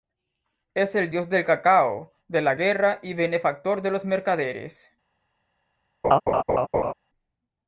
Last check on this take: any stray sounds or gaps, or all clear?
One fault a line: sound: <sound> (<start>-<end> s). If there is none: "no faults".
sound: laugh (6.0-6.9 s)